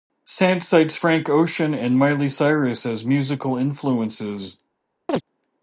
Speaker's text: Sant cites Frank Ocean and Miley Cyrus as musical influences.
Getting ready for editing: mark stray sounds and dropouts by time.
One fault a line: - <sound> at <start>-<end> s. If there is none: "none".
- chirp at 5.1-5.2 s